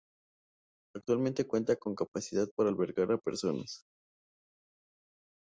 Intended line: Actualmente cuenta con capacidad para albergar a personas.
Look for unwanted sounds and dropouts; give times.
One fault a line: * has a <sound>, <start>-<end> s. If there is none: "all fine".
all fine